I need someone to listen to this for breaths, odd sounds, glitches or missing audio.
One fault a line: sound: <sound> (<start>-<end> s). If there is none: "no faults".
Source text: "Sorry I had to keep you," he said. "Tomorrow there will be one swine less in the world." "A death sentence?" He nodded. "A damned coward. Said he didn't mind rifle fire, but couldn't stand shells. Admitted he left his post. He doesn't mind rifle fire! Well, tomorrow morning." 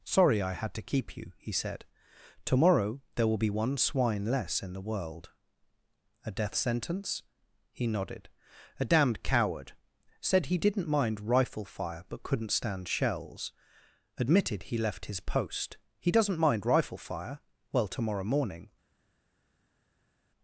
no faults